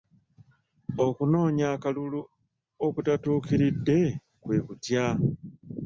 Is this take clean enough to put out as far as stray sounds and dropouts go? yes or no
yes